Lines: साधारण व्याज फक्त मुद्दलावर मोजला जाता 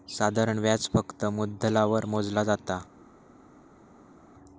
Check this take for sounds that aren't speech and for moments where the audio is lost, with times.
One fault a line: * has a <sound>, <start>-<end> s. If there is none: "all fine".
all fine